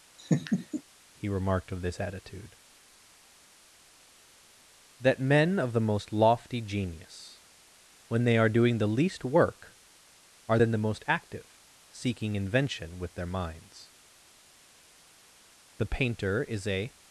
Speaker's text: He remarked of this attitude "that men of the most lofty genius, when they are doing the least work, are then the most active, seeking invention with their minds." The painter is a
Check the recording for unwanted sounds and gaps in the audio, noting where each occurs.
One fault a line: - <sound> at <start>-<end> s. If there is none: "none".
- laugh at 0.2-0.8 s